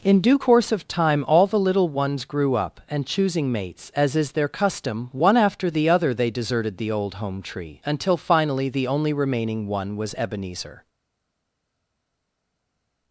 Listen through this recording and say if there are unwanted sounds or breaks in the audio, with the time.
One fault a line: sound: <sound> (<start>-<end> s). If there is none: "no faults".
no faults